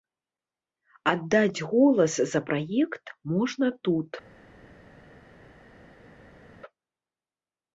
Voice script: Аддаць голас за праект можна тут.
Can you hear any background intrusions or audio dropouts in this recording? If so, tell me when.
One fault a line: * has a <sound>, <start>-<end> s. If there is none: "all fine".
all fine